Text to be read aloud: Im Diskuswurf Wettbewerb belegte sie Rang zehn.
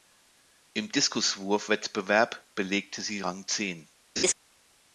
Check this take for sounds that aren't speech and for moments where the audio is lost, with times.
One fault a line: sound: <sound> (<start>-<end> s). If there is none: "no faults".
sound: laugh (4.2-4.3 s)